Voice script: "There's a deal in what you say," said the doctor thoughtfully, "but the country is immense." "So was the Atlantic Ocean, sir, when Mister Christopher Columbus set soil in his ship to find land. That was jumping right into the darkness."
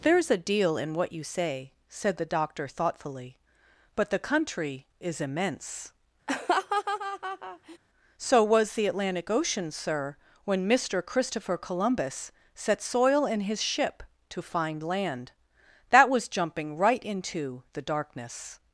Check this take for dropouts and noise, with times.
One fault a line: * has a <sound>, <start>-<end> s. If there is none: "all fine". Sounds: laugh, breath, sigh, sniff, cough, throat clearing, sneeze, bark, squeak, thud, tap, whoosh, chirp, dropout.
* has a laugh, 6.3-7.8 s